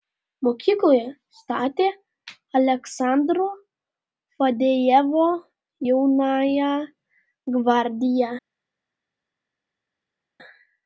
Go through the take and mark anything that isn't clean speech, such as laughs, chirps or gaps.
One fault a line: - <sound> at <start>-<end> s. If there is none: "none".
none